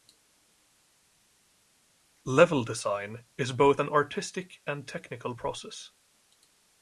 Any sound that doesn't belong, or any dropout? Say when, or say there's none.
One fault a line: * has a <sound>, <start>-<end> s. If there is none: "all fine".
all fine